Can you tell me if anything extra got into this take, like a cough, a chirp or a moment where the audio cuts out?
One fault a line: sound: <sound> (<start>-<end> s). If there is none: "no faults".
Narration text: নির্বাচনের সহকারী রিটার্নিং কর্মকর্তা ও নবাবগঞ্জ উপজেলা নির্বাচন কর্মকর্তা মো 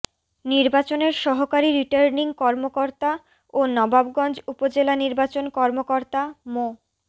no faults